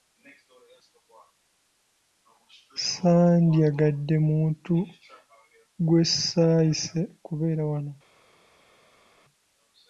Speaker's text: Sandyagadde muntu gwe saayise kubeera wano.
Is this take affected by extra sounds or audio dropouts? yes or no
no